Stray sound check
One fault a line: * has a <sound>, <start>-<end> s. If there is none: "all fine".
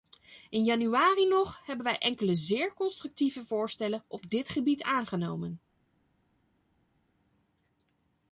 all fine